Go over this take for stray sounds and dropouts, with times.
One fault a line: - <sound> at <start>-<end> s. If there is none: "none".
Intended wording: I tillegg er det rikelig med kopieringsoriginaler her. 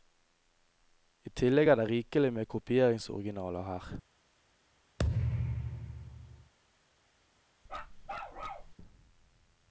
- thud at 5.0-6.5 s
- bark at 7.7-8.7 s